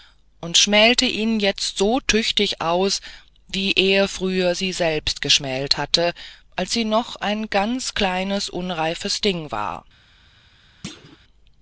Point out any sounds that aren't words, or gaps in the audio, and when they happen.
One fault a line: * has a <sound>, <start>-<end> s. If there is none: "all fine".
* has a thud, 10.8-11.2 s